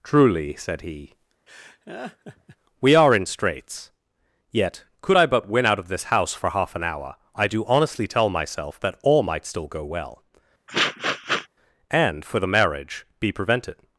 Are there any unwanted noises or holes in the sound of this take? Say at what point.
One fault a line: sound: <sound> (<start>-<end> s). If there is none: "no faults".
sound: laugh (1.5-2.6 s)
sound: sniff (10.7-11.5 s)